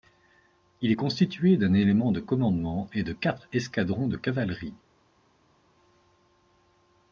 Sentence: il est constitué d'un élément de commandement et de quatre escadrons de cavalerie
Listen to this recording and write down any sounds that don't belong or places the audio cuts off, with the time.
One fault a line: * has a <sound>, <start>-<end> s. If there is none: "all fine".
all fine